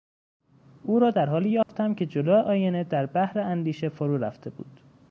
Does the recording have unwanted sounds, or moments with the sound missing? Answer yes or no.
yes